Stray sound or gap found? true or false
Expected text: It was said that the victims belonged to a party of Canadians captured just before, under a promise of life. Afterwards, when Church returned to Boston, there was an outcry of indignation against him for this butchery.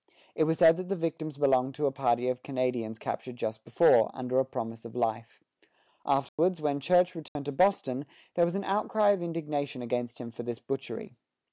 true